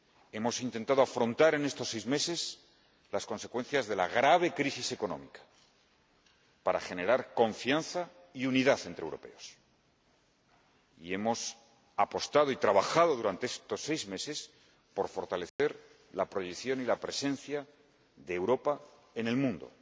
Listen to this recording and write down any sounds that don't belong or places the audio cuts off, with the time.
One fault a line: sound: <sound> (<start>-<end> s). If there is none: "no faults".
sound: dropout (15.5-15.6 s)